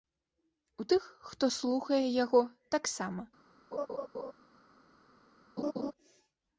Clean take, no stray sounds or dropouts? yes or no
no